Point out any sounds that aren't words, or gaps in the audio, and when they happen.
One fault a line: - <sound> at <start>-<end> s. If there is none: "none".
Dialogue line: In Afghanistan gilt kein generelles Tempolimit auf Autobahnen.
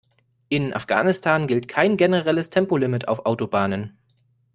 none